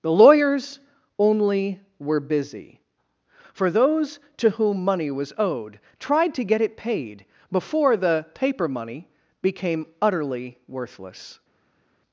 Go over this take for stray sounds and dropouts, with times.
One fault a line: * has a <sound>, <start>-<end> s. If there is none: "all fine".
all fine